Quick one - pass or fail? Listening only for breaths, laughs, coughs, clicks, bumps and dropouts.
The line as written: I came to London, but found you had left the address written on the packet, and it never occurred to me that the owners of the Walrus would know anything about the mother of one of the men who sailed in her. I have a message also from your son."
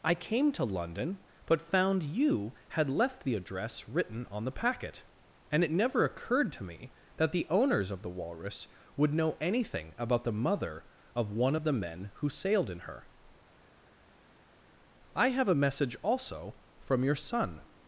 pass